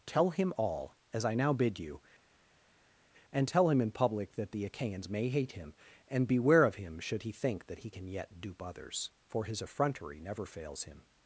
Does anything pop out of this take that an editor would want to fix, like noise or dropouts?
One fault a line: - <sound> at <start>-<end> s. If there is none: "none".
none